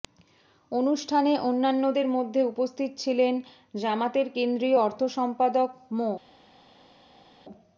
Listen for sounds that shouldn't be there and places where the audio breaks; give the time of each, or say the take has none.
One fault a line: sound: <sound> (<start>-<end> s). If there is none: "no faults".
no faults